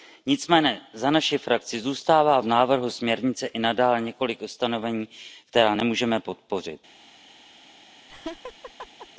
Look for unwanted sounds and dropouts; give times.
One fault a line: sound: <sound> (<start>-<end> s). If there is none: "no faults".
sound: laugh (8.1-9.1 s)